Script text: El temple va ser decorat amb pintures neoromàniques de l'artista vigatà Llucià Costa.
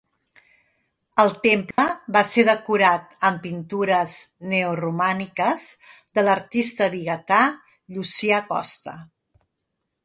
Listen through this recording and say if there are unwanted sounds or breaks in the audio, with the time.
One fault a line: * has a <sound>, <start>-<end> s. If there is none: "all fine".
* has a dropout, 1.7-1.8 s